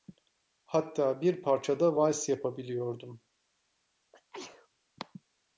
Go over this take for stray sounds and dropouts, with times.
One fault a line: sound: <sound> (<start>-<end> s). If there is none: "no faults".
sound: sneeze (4.1-4.7 s)